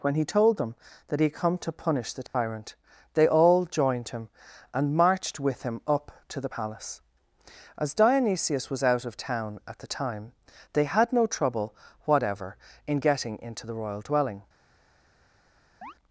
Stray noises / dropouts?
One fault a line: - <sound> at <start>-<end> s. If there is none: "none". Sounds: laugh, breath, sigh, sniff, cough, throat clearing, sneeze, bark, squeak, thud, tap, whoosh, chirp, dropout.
- dropout at 2.3-2.3 s
- chirp at 15.8-15.9 s